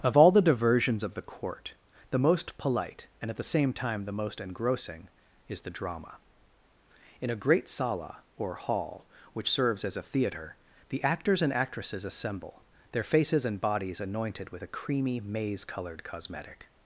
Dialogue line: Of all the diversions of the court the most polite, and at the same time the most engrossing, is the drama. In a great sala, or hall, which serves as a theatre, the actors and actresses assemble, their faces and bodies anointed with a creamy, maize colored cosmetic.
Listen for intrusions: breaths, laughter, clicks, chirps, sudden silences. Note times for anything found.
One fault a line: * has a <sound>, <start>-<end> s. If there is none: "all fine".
all fine